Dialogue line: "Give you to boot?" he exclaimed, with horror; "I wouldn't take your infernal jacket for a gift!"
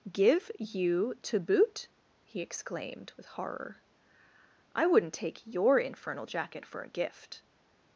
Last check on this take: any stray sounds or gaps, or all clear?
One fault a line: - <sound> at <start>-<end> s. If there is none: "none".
none